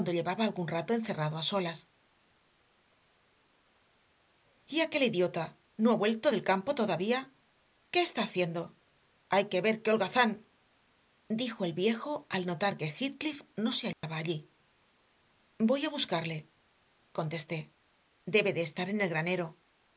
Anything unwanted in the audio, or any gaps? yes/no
yes